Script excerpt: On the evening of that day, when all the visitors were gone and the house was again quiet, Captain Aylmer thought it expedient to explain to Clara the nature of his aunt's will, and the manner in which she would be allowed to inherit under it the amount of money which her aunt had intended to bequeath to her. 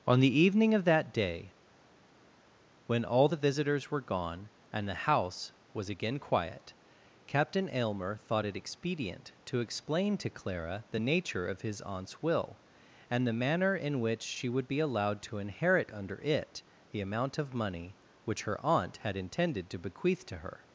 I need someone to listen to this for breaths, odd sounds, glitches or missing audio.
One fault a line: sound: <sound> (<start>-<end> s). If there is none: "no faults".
no faults